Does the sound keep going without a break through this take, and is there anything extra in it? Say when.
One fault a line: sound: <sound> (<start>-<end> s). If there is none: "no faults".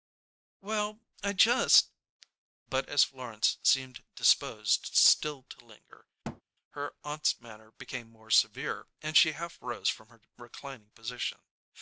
sound: thud (6.2-6.4 s)